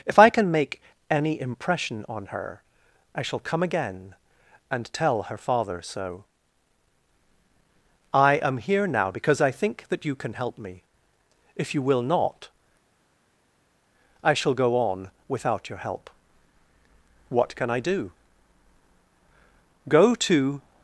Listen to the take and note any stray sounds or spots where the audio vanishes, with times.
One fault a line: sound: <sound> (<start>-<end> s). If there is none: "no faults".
no faults